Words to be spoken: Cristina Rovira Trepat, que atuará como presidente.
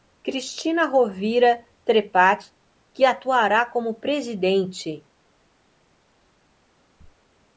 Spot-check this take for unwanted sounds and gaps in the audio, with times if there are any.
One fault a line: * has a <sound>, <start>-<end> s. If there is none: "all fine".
all fine